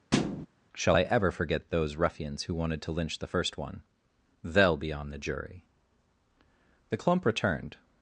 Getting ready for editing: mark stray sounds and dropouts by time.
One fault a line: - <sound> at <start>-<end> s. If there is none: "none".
- thud at 0.1-0.5 s